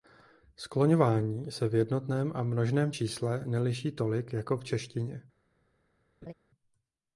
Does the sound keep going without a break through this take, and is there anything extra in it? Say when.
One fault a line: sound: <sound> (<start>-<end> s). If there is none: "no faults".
sound: laugh (6.2-6.3 s)